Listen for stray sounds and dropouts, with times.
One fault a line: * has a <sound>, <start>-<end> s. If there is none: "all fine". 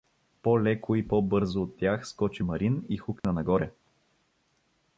* has a dropout, 3.2-3.2 s